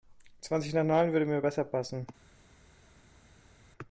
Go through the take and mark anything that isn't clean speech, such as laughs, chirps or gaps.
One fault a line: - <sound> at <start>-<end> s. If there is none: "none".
none